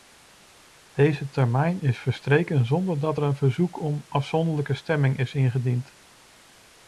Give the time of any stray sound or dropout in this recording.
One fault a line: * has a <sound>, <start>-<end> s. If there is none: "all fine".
all fine